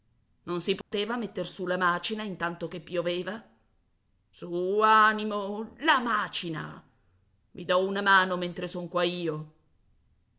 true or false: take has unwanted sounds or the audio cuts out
true